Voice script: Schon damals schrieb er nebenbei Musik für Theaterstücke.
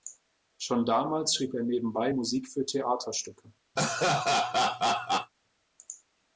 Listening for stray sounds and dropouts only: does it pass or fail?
fail